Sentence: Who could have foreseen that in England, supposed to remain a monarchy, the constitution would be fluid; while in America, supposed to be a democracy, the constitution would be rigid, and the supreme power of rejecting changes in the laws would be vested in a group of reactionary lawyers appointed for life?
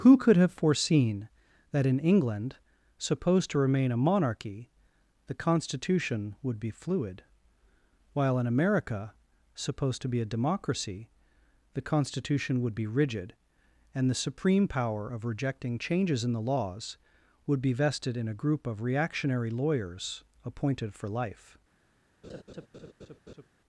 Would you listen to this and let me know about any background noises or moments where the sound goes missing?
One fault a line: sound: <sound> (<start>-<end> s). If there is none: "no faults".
sound: laugh (22.2-23.5 s)